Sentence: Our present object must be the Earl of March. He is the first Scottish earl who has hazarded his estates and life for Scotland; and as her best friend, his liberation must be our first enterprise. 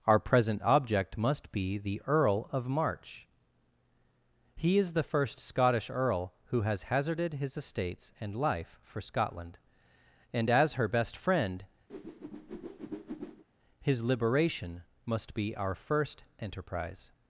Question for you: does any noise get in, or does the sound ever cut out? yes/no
yes